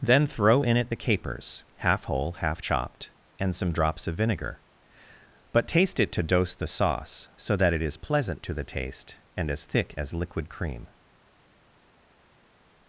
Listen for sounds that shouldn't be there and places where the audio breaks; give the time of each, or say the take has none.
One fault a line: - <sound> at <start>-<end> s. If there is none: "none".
none